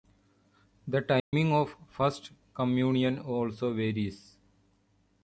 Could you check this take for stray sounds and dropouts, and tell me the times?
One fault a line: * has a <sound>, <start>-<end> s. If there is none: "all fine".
* has a dropout, 1.2-1.3 s